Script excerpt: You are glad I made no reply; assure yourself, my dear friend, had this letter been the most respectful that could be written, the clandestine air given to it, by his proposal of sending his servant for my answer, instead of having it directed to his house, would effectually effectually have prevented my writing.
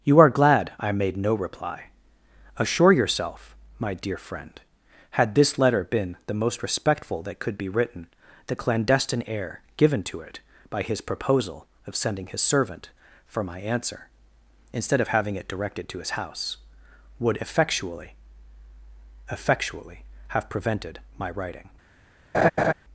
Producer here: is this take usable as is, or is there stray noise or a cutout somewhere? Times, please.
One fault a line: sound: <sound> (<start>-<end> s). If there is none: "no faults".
sound: laugh (22.3-22.7 s)